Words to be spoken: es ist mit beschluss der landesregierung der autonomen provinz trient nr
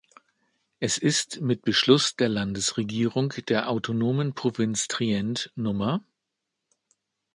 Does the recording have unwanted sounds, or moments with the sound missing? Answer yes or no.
no